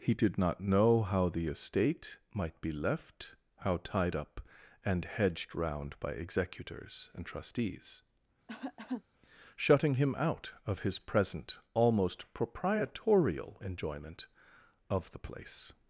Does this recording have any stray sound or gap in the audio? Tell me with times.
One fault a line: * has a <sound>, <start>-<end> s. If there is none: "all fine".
* has a cough, 8.5-9.0 s